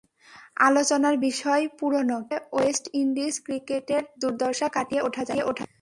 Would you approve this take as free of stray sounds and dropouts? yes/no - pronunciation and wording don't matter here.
yes